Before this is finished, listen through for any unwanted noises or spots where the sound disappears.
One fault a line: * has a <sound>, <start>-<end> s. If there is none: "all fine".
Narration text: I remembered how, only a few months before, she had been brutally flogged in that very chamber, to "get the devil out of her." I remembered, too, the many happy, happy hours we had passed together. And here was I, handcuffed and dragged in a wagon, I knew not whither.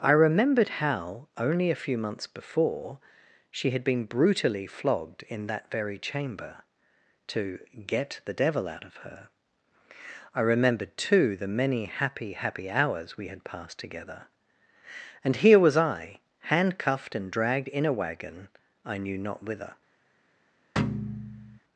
* has a thud, 20.8-21.6 s